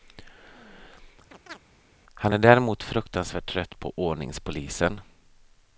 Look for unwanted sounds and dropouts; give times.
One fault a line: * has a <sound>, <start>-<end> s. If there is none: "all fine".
* has a chirp, 1.3-1.6 s